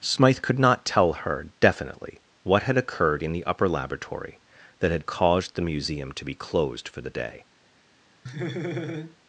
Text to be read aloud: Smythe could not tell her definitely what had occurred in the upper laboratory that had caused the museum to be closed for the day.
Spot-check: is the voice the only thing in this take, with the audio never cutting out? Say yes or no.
no